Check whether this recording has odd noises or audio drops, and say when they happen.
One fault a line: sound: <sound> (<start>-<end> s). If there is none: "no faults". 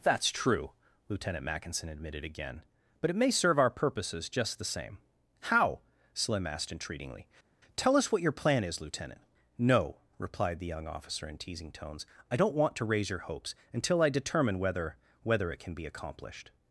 no faults